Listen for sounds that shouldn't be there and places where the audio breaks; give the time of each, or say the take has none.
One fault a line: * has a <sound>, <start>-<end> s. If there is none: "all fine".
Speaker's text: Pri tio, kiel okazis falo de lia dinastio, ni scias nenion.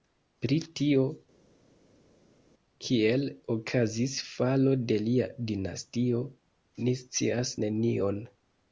all fine